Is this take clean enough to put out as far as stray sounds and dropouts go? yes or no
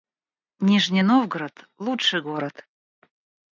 yes